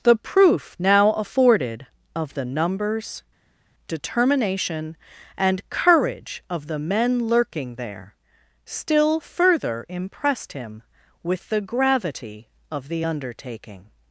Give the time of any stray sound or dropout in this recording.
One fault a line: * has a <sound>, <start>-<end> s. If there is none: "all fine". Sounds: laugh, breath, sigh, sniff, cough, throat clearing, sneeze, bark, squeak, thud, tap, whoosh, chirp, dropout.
all fine